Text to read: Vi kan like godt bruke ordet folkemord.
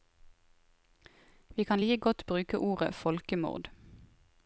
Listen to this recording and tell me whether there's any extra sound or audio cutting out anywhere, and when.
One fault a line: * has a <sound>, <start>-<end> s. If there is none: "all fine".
all fine